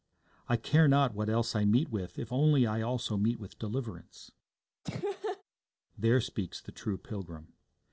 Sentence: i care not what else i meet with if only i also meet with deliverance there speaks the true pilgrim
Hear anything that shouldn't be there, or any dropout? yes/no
yes